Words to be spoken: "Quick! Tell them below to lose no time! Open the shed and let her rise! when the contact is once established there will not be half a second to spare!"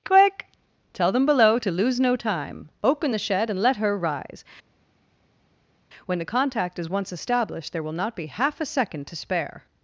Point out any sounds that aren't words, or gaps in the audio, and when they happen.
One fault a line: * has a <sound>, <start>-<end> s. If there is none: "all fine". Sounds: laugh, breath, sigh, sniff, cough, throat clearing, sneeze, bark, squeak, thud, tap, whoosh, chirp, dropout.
all fine